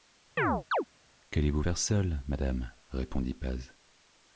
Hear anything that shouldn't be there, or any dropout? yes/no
yes